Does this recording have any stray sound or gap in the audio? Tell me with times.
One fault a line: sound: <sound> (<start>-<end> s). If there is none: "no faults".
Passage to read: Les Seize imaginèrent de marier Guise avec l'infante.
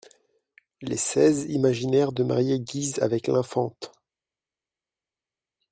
no faults